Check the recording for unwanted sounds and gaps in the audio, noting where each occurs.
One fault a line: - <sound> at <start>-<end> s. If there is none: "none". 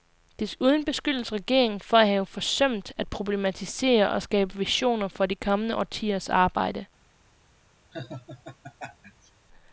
- laugh at 7.9-9.3 s